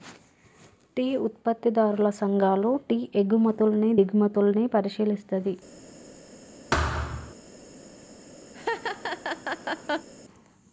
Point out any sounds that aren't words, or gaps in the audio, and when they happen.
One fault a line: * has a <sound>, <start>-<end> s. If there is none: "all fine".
* has a thud, 6.7-7.3 s
* has a laugh, 8.5-10.1 s